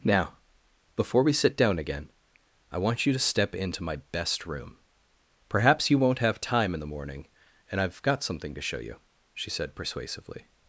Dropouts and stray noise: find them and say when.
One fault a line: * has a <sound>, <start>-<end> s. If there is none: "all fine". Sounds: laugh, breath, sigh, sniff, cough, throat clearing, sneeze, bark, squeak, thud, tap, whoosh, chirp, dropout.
all fine